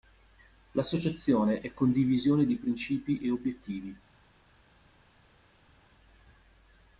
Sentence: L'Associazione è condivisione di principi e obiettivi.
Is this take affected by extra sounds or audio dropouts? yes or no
no